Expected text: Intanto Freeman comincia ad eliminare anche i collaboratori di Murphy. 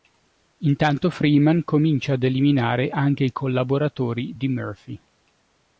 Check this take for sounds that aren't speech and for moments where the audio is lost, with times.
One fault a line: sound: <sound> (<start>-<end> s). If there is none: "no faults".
no faults